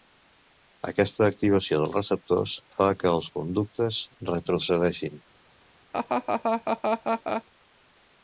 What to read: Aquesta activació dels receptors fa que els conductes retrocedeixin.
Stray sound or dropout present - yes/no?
yes